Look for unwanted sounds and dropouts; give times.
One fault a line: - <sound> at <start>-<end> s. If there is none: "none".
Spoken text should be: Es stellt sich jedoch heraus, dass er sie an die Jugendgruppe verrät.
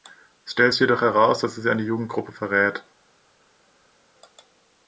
none